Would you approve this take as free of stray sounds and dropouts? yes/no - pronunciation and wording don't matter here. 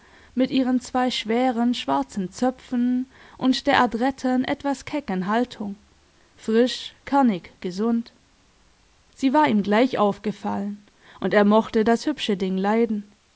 yes